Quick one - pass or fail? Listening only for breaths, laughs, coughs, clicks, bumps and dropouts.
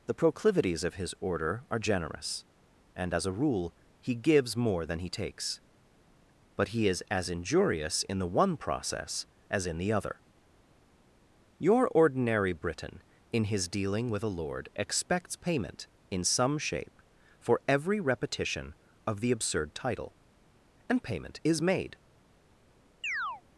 fail